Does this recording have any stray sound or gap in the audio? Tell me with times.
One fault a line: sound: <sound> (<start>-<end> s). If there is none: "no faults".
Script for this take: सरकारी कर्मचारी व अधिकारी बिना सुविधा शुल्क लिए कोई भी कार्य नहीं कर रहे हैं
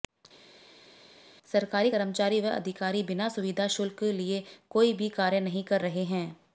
no faults